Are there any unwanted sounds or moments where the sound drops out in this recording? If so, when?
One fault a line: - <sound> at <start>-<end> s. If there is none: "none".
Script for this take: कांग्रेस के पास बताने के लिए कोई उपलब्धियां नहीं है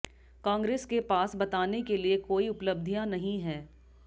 none